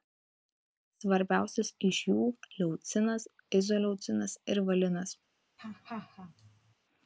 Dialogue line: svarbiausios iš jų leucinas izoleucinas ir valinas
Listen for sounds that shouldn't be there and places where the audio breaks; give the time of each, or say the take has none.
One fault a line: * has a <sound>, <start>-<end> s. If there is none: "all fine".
* has a laugh, 5.6-6.7 s